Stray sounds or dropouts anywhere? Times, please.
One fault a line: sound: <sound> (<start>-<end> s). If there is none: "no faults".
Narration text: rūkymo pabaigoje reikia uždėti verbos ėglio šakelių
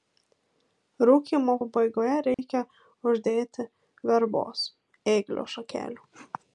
sound: dropout (2.3-2.4 s)